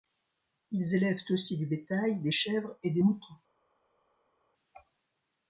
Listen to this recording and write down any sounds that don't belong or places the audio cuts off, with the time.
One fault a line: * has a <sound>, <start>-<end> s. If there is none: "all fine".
all fine